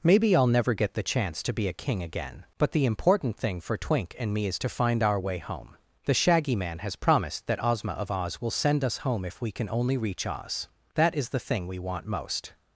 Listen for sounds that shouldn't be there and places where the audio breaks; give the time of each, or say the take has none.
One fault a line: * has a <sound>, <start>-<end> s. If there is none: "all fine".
all fine